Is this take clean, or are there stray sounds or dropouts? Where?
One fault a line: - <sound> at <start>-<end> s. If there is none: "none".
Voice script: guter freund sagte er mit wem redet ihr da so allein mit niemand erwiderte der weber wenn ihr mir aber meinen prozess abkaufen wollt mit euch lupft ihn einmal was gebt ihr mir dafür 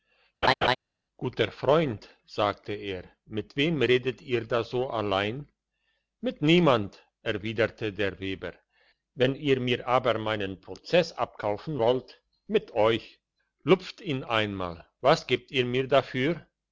- laugh at 0.4-0.8 s